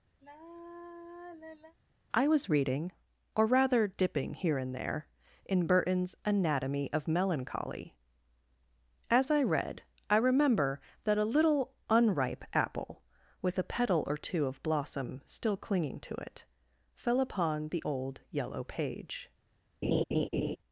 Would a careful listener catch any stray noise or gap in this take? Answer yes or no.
yes